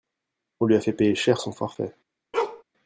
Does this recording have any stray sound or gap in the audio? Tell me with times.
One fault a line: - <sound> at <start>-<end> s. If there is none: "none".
- bark at 2.3-2.6 s